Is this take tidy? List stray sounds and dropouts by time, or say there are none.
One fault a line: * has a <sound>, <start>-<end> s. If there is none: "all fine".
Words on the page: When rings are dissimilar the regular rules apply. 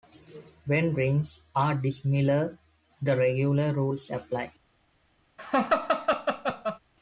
* has a laugh, 5.4-6.8 s